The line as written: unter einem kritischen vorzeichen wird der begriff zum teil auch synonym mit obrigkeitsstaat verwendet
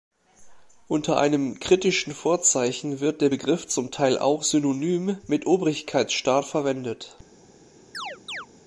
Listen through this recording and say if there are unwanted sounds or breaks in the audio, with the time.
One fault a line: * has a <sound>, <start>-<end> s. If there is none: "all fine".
* has a chirp, 7.9-8.5 s